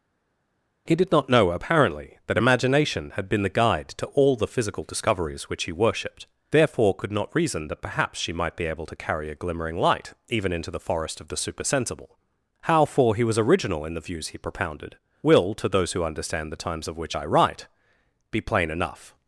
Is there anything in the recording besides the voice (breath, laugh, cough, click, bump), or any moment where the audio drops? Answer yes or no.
no